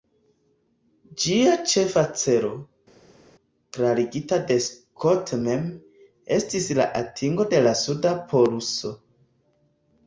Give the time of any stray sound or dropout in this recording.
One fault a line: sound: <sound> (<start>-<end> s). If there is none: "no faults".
no faults